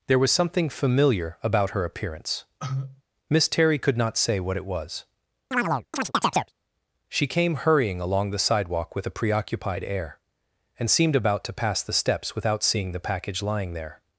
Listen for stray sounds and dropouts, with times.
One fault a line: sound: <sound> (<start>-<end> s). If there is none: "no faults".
sound: cough (2.6-3.0 s)
sound: chirp (5.5-6.5 s)